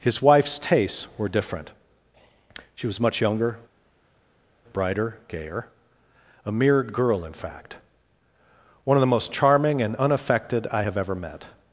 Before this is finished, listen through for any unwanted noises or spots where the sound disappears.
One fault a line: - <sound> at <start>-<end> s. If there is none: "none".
none